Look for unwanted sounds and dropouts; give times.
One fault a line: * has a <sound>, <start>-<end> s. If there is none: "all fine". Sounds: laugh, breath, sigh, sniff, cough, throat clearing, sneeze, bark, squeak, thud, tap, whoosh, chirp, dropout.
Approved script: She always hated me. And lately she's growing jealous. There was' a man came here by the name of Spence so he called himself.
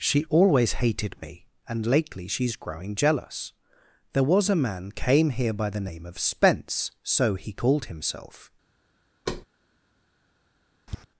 * has a thud, 9.3-9.5 s
* has a tap, 10.9-11.0 s